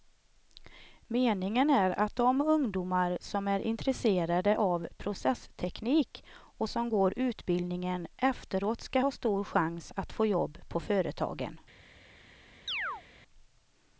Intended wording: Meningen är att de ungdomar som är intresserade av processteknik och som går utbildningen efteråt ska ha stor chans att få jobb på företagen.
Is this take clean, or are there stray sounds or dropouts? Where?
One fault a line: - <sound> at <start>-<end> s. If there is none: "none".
- chirp at 12.7-13.0 s